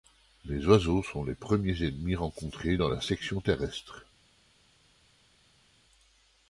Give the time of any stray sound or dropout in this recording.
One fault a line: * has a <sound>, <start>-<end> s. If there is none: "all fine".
all fine